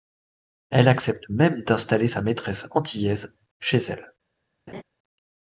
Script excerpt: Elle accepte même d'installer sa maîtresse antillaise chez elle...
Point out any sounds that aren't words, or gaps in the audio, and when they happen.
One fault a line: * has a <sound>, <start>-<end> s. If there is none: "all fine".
* has a laugh, 4.7-4.8 s